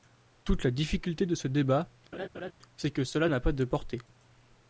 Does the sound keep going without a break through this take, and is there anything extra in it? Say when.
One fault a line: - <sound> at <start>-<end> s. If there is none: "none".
- laugh at 2.1-2.5 s